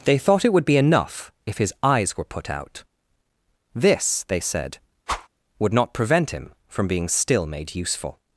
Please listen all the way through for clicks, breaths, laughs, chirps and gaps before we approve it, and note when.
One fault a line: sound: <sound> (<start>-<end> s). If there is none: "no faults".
sound: whoosh (5.1-5.3 s)